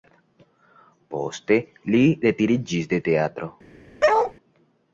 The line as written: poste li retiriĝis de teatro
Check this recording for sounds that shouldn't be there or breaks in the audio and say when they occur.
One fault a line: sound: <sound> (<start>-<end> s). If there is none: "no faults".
sound: bark (4.0-4.3 s)